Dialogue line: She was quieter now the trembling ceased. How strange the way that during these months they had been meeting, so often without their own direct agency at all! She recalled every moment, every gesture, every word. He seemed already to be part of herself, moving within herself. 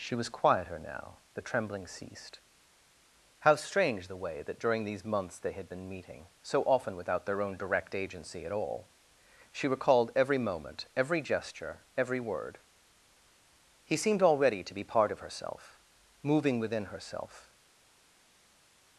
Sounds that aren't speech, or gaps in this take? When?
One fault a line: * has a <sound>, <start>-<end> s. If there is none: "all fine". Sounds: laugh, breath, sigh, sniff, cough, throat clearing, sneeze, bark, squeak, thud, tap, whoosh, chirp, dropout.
all fine